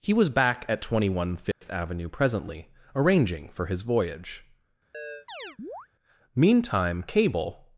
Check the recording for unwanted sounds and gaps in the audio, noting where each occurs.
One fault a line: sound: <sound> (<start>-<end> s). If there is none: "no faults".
sound: dropout (1.5-1.6 s)
sound: chirp (4.9-5.9 s)